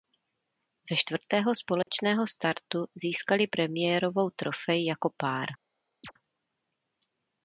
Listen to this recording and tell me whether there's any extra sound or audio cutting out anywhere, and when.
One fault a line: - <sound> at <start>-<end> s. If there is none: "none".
- dropout at 1.8-1.9 s
- chirp at 6.0-6.1 s